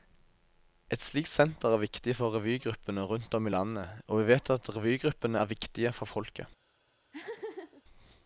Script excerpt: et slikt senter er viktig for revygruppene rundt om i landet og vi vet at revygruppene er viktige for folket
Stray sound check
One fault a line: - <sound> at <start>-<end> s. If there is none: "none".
- laugh at 7.1-7.8 s